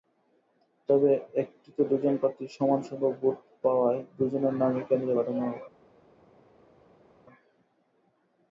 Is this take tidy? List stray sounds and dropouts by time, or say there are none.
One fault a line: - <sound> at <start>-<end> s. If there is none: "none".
none